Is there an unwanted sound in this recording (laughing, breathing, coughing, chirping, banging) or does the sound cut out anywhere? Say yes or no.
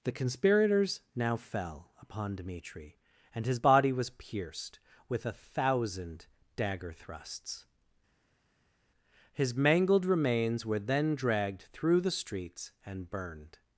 no